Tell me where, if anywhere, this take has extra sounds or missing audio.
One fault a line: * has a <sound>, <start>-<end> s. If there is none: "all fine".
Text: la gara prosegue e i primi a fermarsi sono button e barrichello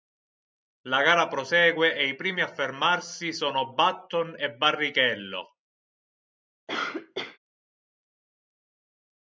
* has a cough, 6.7-7.4 s